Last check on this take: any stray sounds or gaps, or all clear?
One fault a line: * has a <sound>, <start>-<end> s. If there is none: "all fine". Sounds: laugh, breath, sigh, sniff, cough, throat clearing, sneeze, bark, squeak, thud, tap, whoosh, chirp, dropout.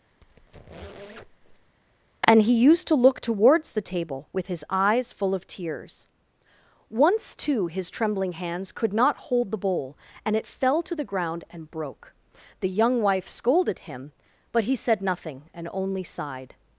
* has a squeak, 0.2-1.8 s